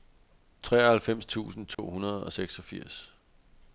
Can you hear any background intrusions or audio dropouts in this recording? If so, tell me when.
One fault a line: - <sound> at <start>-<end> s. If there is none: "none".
- dropout at 1.7-1.8 s